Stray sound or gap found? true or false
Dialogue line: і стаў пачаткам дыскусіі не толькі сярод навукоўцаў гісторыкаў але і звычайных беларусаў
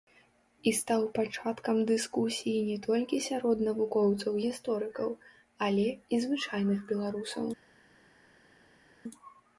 false